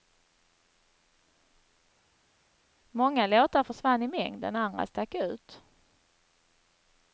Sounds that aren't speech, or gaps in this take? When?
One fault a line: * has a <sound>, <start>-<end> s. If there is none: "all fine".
all fine